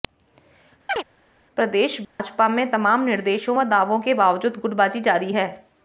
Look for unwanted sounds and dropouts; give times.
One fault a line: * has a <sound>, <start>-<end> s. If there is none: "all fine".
* has a chirp, 0.9-1.0 s
* has a dropout, 2.0-2.2 s